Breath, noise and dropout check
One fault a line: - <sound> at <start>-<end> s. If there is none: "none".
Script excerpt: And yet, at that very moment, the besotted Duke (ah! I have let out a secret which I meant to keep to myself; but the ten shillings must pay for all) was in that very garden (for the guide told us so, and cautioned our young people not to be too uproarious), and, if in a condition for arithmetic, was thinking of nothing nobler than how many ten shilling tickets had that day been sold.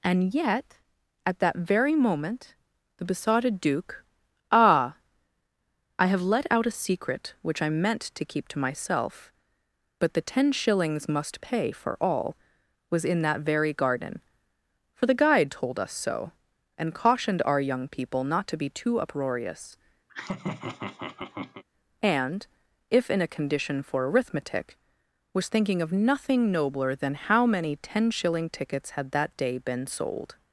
- laugh at 20.1-21.6 s